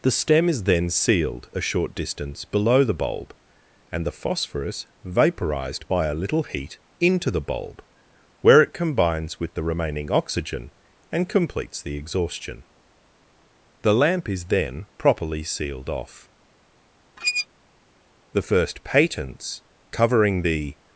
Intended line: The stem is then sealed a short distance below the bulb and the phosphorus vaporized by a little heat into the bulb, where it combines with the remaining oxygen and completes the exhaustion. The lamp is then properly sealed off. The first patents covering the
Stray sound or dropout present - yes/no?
yes